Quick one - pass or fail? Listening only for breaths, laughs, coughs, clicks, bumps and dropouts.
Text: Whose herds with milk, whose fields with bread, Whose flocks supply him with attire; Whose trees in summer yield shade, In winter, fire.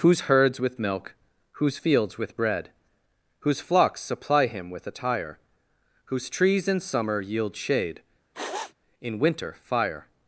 fail